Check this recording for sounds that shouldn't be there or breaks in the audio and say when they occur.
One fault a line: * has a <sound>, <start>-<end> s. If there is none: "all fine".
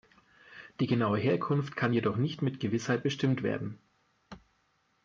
all fine